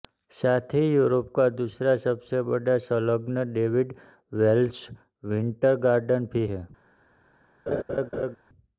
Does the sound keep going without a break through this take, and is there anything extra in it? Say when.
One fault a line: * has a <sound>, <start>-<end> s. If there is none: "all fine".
* has a laugh, 7.7-8.4 s